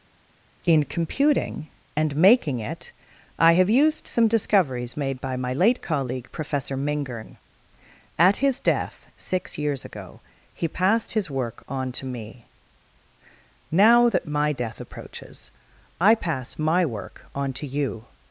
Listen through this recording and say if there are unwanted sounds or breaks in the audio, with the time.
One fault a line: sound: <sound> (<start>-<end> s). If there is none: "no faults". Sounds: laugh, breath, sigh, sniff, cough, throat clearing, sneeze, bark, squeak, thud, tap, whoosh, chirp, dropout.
no faults